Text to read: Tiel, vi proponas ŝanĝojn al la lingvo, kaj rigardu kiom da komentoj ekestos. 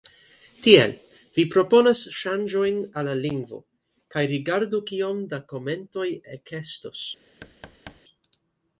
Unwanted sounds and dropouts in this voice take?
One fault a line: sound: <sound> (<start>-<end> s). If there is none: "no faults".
sound: thud (7.4-8.0 s)